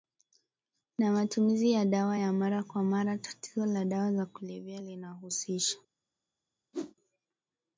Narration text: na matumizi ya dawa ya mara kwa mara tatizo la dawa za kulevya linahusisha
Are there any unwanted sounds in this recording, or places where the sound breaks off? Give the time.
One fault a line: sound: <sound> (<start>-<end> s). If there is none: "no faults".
sound: whoosh (6.7-6.9 s)